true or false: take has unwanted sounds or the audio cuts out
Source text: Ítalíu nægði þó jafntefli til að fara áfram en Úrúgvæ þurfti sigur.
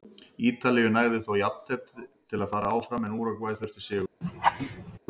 true